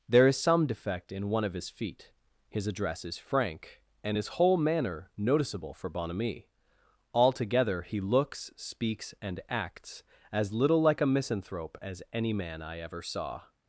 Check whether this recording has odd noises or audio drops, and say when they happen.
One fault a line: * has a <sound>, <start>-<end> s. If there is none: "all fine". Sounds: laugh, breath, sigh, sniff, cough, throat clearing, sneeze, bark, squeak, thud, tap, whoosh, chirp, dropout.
all fine